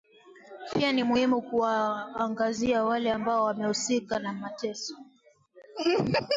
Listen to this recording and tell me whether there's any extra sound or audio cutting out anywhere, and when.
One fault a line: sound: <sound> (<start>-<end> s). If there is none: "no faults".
no faults